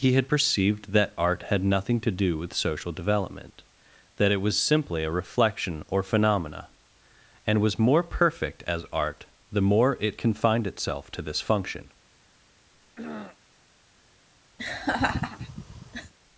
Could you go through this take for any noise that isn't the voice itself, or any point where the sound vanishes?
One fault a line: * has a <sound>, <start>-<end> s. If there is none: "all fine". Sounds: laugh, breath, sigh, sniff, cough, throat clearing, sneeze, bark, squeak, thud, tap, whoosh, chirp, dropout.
* has a throat clearing, 12.7-13.4 s
* has a laugh, 14.6-16.1 s